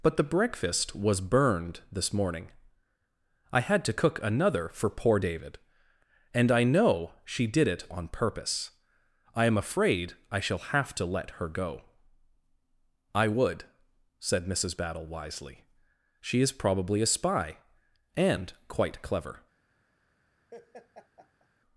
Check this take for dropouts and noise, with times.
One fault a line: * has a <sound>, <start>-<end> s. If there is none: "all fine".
* has a laugh, 20.5-21.5 s